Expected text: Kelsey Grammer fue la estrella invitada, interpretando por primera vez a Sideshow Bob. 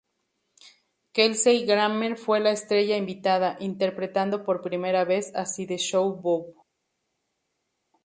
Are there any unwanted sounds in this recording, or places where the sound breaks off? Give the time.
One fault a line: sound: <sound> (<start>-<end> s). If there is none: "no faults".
no faults